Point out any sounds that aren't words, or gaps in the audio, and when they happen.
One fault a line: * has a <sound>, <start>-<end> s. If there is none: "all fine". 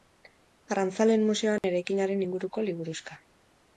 * has a dropout, 1.6-1.6 s